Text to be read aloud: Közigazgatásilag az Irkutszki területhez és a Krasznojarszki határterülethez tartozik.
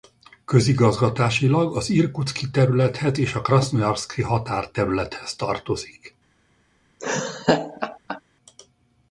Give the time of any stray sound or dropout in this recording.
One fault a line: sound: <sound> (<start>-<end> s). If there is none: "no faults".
sound: laugh (7.0-8.2 s)